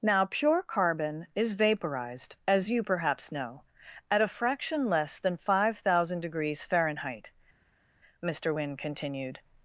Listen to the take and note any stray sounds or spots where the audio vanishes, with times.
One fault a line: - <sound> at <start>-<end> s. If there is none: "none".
none